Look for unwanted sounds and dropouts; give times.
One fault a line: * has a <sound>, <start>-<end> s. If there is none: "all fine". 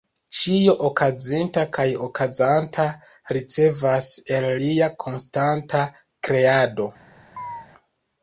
* has a chirp, 7.4-7.7 s